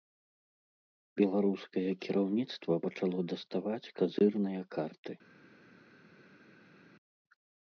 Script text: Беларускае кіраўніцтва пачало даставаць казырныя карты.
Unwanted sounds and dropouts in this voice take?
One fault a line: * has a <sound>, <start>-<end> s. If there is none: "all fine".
all fine